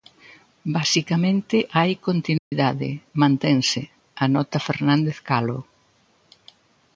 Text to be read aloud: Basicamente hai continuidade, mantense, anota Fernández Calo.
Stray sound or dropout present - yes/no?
yes